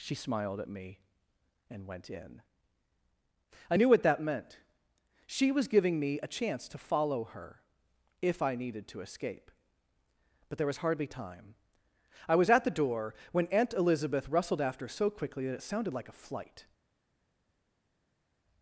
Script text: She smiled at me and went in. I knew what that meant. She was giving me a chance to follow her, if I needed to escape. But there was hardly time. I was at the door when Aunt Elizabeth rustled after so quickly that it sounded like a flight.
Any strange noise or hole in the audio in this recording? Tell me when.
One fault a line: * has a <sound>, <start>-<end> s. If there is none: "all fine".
all fine